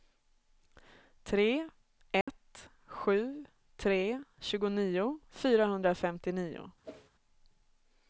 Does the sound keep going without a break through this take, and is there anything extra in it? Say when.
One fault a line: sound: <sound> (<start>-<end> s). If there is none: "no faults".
sound: dropout (2.2-2.3 s)
sound: whoosh (6.8-7.1 s)